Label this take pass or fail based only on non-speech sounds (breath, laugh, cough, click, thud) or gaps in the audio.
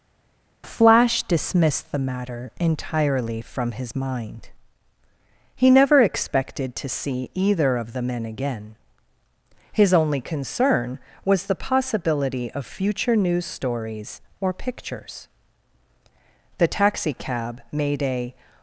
pass